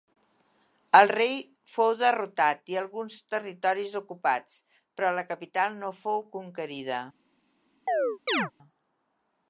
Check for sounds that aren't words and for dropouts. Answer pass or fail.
fail